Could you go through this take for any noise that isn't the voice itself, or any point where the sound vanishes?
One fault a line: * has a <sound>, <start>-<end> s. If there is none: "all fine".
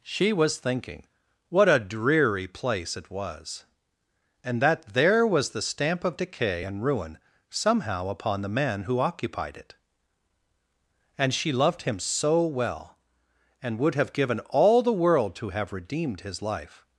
all fine